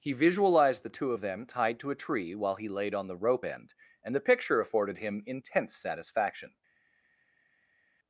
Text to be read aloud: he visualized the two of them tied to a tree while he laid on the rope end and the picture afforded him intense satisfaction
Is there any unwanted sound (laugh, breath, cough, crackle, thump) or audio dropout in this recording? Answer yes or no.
no